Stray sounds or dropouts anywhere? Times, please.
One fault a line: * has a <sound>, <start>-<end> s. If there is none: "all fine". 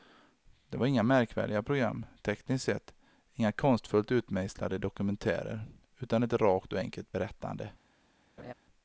* has a laugh, 8.4-8.5 s